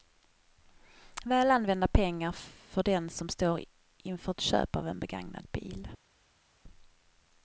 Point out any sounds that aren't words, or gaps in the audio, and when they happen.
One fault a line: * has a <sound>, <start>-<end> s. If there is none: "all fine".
all fine